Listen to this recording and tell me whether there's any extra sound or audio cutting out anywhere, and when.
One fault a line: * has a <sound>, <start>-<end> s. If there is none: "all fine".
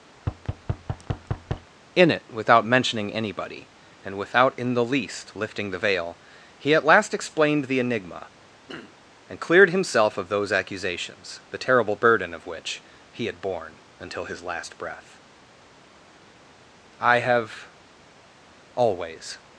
* has a thud, 0.2-1.7 s
* has a throat clearing, 8.7-9.0 s